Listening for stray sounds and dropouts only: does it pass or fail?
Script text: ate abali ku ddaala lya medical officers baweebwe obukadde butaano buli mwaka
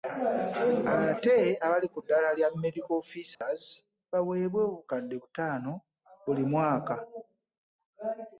fail